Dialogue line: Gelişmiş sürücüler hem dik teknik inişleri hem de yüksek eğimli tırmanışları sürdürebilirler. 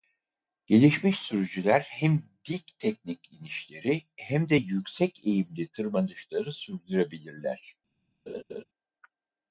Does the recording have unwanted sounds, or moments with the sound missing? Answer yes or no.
yes